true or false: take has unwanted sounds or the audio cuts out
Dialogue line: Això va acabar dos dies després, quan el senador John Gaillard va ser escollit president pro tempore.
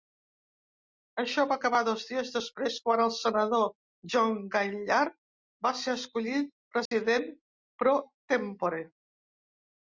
true